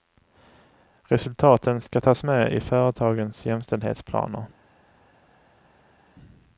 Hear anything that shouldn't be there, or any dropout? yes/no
no